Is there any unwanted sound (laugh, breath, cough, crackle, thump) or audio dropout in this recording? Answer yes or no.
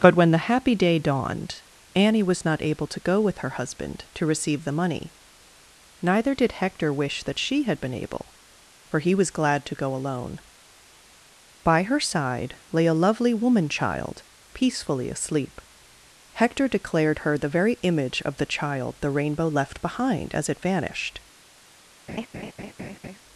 yes